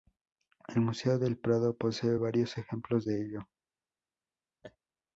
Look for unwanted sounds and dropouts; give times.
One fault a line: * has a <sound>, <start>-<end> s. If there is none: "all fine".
* has a laugh, 4.6-4.8 s